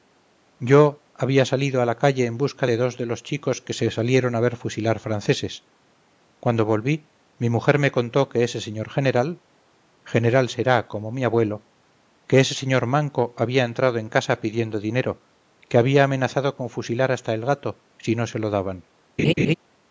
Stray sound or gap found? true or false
true